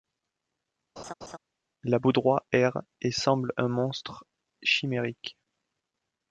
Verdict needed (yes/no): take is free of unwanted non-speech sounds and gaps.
no